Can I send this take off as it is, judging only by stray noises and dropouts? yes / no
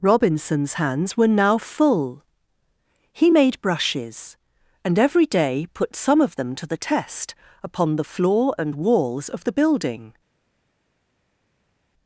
yes